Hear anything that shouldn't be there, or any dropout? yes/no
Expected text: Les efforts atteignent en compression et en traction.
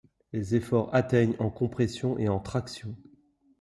no